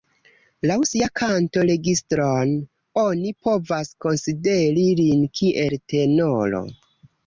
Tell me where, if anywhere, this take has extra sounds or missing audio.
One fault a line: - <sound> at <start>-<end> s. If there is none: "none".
none